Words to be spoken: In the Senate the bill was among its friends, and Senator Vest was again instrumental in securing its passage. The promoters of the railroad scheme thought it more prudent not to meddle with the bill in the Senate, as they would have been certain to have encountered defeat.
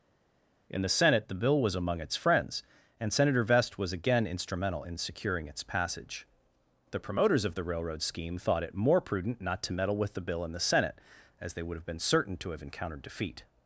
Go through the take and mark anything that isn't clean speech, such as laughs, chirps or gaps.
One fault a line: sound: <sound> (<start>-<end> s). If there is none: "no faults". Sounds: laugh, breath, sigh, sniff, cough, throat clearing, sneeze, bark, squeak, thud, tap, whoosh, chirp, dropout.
no faults